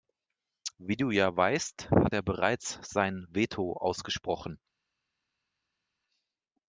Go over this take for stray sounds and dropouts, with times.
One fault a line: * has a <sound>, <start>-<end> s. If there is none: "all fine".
all fine